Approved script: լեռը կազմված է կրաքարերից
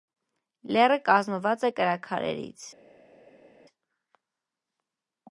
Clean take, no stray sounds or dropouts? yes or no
yes